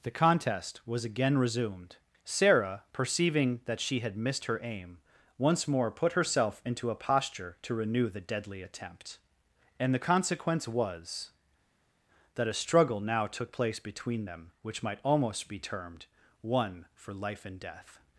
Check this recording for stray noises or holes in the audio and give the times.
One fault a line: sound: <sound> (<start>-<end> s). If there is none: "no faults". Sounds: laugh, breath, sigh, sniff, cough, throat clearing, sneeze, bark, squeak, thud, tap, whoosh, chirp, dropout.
no faults